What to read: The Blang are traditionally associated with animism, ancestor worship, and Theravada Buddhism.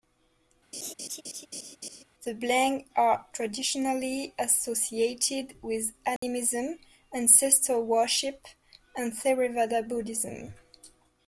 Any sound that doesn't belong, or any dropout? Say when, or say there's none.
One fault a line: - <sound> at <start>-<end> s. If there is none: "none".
- laugh at 0.7-2.0 s
- dropout at 6.2-6.2 s